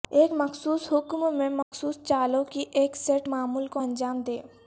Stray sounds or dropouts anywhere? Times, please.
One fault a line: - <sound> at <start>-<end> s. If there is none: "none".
- dropout at 1.6-1.7 s